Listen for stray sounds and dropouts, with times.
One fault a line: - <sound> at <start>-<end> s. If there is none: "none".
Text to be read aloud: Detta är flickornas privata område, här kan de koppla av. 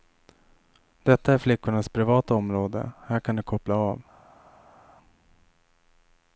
none